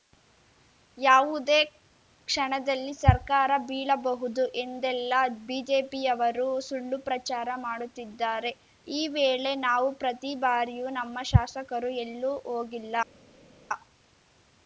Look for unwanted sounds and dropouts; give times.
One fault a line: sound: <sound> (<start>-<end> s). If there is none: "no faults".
no faults